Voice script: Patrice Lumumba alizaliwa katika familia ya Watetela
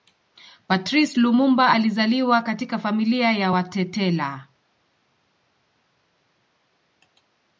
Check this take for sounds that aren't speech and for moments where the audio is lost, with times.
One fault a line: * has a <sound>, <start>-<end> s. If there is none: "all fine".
all fine